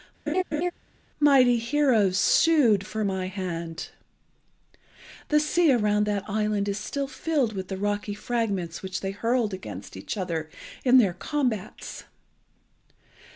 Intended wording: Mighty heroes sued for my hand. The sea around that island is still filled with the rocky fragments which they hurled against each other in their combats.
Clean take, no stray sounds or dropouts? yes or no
no